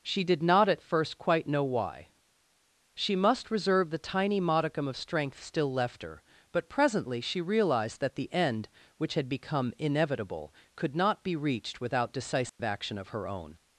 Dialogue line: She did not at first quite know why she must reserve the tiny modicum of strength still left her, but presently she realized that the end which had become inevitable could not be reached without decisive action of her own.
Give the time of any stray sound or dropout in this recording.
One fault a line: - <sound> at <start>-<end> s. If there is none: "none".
- dropout at 12.5-12.6 s